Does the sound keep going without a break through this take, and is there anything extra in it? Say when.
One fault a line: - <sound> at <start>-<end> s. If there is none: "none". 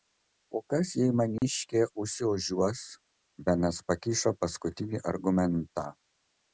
- dropout at 1.4-1.4 s